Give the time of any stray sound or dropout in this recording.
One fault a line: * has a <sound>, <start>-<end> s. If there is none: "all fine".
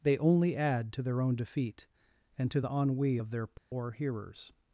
* has a dropout, 3.6-3.7 s